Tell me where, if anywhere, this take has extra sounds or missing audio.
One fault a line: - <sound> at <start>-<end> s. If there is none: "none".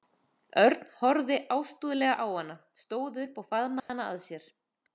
- dropout at 3.8-3.9 s